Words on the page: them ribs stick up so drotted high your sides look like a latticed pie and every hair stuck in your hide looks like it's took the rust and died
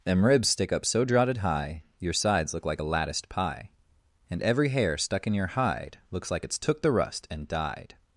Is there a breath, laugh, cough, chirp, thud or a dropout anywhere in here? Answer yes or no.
no